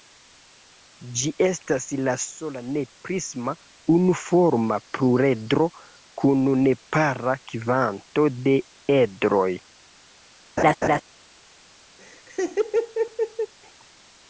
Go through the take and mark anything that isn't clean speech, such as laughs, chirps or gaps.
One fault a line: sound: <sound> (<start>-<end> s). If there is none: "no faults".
sound: laugh (10.6-11.0 s)
sound: laugh (12.0-13.5 s)